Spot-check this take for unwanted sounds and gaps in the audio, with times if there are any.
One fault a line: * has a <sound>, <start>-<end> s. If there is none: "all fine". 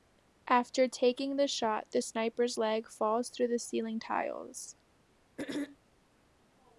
* has a throat clearing, 5.4-5.8 s